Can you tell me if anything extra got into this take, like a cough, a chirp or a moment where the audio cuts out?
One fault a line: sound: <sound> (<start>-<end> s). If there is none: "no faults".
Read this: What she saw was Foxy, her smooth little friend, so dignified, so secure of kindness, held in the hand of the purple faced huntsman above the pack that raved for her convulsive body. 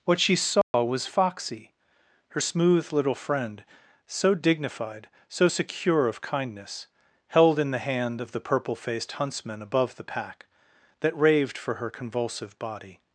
sound: dropout (0.6-0.7 s)